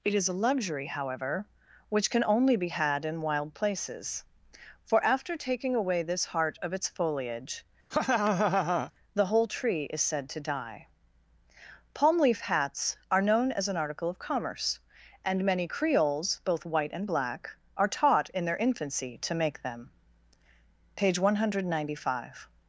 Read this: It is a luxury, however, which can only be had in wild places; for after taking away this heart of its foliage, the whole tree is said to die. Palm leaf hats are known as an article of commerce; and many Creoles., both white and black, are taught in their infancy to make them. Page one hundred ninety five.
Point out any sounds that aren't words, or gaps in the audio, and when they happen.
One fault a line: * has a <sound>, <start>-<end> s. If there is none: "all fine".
* has a laugh, 7.9-8.9 s